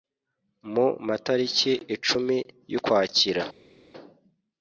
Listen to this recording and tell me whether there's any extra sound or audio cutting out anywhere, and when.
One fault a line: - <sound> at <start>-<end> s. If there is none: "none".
none